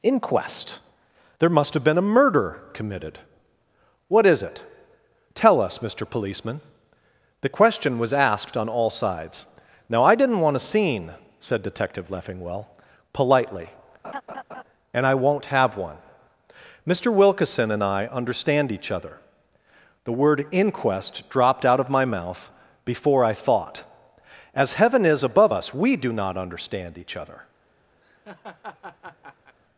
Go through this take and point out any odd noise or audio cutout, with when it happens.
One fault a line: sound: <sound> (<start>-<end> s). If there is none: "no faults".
sound: laugh (14.0-14.6 s)
sound: laugh (28.0-29.6 s)